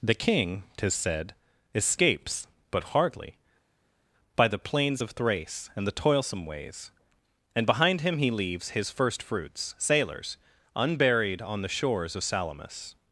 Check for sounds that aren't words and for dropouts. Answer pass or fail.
pass